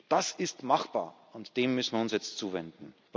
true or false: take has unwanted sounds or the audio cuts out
false